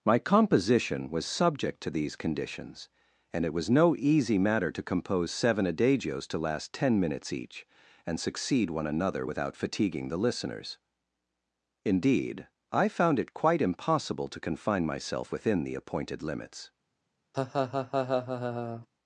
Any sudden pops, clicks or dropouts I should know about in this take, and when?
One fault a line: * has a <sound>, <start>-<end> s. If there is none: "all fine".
* has a laugh, 17.3-18.9 s